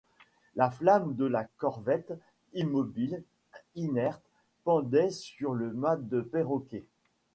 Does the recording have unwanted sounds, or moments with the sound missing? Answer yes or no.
no